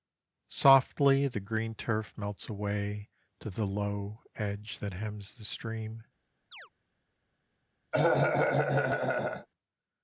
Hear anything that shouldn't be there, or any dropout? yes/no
yes